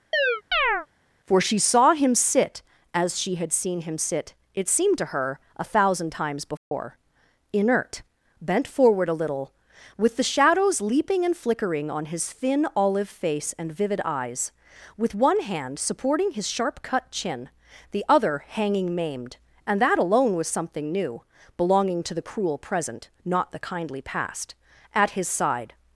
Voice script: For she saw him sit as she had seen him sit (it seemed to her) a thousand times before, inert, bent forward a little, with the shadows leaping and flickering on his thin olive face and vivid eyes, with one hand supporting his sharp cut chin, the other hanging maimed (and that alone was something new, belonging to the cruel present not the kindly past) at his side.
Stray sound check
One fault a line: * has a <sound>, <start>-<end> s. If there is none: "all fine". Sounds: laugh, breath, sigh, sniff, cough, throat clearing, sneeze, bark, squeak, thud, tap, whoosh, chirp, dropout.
* has a chirp, 0.1-0.9 s
* has a dropout, 6.6-6.7 s